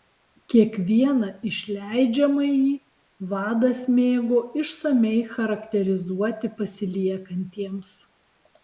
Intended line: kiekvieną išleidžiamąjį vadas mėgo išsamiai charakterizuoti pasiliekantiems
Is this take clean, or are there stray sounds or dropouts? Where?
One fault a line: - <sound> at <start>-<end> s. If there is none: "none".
none